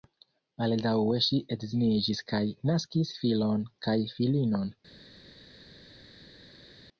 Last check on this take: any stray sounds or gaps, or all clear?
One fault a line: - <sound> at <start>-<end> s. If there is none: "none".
none